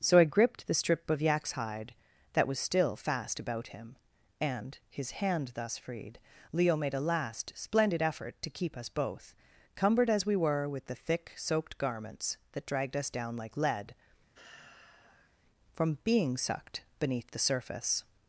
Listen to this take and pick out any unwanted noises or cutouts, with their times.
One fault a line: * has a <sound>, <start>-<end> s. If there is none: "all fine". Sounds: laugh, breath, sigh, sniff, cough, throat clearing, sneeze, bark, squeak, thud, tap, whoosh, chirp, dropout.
* has a sigh, 14.3-15.4 s